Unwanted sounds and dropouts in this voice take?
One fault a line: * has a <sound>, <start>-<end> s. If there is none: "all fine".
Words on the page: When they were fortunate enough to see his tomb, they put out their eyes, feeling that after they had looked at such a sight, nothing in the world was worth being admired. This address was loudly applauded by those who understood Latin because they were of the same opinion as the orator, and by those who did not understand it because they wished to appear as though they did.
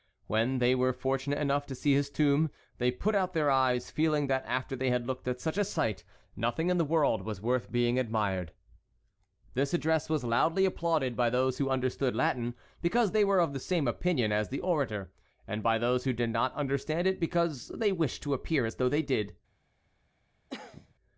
* has a cough, 20.5-20.9 s